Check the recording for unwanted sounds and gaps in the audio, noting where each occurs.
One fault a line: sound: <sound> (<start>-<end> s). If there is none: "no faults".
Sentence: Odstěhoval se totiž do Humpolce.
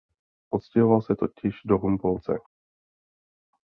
no faults